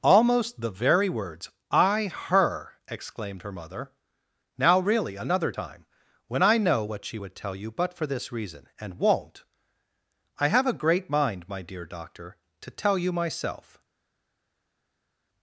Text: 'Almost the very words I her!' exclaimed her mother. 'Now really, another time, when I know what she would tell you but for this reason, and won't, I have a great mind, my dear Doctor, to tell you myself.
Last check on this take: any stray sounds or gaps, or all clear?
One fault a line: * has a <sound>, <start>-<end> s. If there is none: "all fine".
all fine